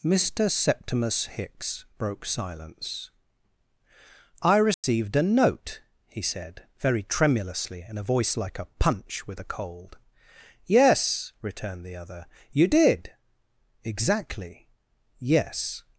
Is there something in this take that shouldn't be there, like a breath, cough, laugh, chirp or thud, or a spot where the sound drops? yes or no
yes